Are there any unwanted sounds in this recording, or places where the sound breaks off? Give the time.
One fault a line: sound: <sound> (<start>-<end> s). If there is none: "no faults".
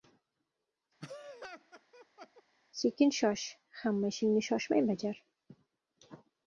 sound: laugh (1.0-2.4 s)